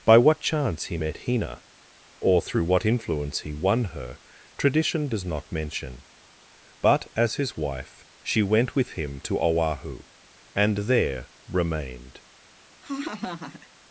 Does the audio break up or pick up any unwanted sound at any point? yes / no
yes